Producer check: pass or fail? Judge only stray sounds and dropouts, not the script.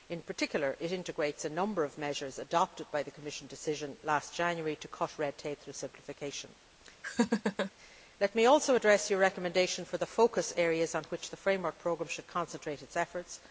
fail